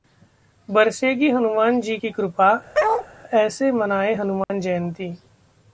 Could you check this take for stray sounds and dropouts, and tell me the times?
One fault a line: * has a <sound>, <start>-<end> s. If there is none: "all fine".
* has a bark, 2.7-3.1 s
* has a dropout, 4.4-4.5 s